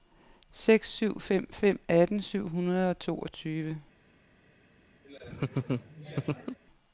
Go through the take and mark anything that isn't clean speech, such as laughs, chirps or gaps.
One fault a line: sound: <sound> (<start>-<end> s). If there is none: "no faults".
sound: laugh (5.0-6.6 s)